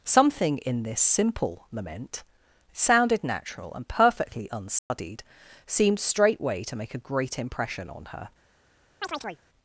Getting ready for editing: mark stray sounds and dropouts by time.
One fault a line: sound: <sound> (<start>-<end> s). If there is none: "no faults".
sound: dropout (4.8-4.9 s)
sound: chirp (9.0-9.4 s)